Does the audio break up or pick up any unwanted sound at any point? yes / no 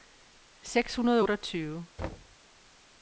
yes